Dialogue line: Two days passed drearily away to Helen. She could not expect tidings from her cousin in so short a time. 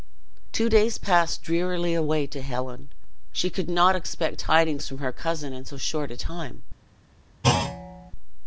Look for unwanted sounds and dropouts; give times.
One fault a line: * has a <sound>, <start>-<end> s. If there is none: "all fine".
* has a thud, 7.4-8.1 s